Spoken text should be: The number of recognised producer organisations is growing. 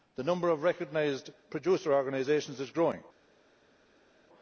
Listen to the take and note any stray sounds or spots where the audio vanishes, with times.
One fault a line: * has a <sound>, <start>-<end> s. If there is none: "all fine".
all fine